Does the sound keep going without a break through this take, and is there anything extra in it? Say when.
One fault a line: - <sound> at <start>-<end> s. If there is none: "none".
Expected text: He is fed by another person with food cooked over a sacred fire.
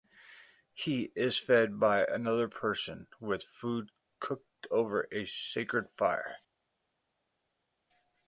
none